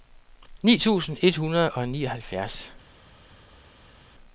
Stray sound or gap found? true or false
false